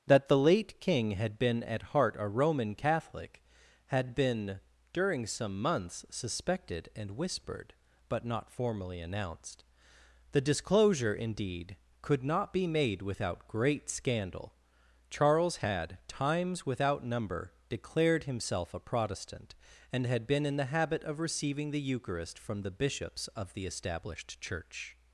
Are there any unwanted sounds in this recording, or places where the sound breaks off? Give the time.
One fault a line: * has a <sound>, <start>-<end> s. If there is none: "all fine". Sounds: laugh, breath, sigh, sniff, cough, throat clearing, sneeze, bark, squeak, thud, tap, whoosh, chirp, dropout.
all fine